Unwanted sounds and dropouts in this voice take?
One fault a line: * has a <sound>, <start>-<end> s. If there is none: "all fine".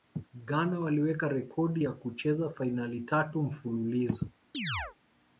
* has a chirp, 4.5-5.0 s